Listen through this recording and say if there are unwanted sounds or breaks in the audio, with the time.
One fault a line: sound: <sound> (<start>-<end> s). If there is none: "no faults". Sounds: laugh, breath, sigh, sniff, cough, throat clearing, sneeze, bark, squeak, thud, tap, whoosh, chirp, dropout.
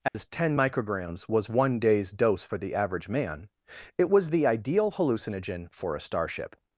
sound: dropout (0.1-0.1 s)